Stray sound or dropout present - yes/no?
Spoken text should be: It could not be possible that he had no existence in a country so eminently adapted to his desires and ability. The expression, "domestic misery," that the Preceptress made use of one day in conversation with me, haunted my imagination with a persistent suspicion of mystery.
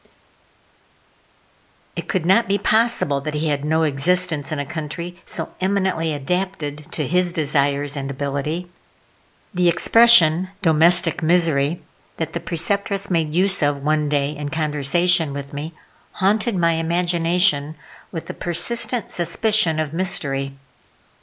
no